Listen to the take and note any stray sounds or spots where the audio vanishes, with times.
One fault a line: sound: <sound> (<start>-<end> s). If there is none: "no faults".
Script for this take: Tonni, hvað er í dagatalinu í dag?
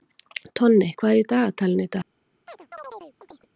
sound: chirp (2.5-3.5 s)